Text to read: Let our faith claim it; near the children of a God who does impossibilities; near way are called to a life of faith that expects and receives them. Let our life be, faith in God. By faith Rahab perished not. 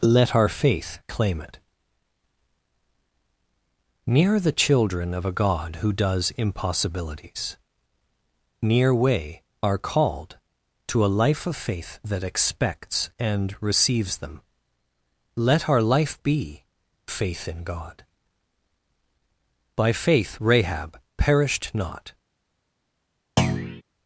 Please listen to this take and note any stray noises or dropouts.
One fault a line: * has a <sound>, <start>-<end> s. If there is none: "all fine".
* has a thud, 23.4-23.8 s